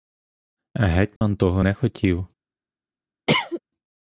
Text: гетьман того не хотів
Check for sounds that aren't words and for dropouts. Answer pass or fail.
fail